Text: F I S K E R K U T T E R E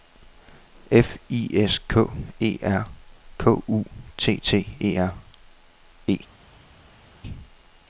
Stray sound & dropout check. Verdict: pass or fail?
pass